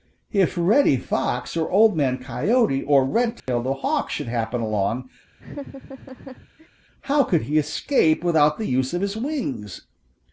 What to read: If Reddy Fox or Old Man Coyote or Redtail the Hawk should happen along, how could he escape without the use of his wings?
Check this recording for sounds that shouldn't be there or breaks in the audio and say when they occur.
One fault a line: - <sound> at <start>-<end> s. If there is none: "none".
- dropout at 3.4-3.5 s
- laugh at 5.4-6.7 s